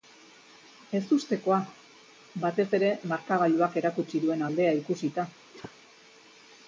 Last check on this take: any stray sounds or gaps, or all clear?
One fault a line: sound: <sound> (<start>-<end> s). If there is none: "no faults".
sound: cough (5.5-5.8 s)